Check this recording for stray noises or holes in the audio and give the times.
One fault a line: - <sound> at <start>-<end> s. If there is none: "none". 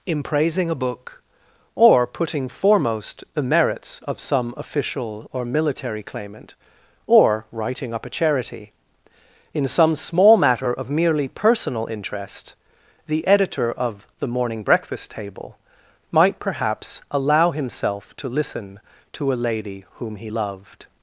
none